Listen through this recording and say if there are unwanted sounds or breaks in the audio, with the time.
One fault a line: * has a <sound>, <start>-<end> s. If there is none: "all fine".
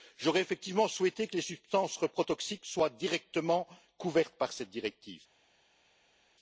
all fine